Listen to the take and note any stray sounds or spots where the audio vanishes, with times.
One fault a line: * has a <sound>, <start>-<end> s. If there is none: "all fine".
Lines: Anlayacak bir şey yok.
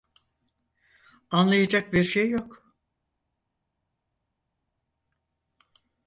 all fine